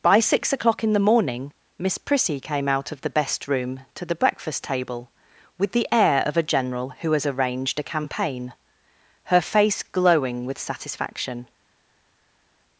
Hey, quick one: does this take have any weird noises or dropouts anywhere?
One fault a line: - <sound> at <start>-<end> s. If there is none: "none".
none